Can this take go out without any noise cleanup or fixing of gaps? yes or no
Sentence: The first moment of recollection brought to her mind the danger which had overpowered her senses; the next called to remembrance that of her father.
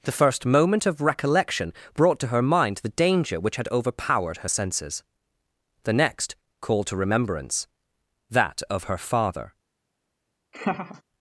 no